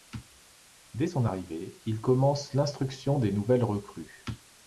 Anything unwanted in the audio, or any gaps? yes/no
no